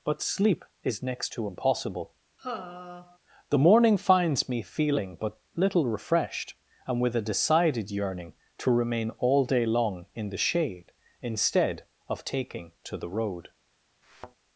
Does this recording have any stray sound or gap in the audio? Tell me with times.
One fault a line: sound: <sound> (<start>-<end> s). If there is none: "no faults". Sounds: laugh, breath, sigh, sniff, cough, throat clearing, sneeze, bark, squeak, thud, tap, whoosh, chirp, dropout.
sound: sigh (2.4-3.2 s)
sound: thud (14.0-14.4 s)